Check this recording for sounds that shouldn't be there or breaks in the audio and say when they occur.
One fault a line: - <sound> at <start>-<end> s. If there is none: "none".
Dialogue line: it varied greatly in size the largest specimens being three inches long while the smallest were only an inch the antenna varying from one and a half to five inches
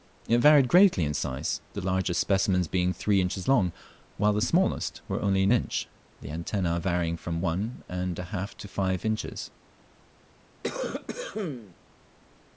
- cough at 10.6-11.8 s